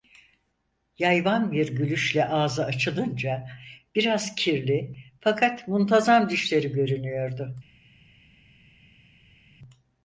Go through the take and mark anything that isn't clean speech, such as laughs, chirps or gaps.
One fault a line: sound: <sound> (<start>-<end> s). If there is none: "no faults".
no faults